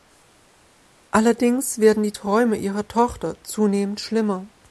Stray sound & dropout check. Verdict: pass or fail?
pass